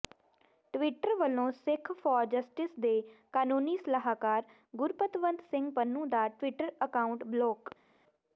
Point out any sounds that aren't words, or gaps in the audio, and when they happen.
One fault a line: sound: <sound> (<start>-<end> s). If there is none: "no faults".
no faults